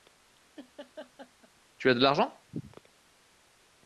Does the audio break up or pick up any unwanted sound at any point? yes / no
yes